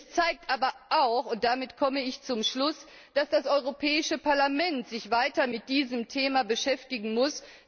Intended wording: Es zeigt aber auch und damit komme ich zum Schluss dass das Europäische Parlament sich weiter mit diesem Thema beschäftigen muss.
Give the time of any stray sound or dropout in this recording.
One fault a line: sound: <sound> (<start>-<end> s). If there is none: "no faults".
no faults